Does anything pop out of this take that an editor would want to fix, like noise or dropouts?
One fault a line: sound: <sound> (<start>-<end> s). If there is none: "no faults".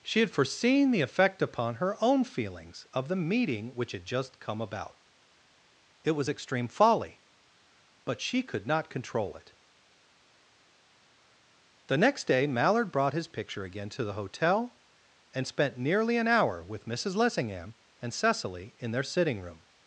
no faults